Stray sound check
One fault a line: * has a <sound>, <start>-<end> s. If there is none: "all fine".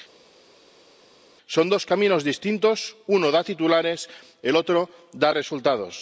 all fine